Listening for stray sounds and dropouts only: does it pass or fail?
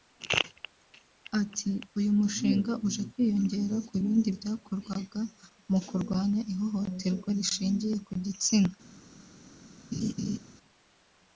fail